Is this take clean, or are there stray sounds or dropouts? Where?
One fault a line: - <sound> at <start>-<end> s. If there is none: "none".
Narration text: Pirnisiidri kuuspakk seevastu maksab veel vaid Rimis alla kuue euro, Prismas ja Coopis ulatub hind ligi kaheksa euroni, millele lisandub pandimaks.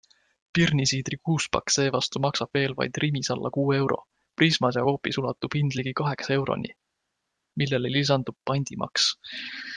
none